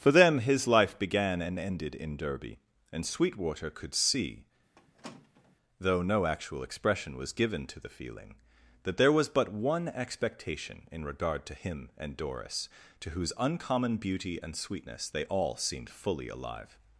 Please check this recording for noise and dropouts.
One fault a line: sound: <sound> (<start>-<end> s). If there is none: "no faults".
sound: squeak (4.8-5.6 s)